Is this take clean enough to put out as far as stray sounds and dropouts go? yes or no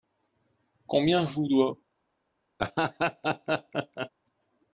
no